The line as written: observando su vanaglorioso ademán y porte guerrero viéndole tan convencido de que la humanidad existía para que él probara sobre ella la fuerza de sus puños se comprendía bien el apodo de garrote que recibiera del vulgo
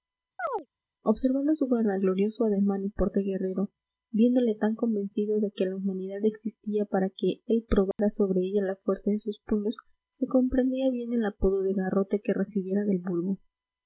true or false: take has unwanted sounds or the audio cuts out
true